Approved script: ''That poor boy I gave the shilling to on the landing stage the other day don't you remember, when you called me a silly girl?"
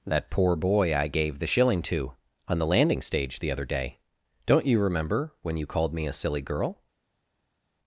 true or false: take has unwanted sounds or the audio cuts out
false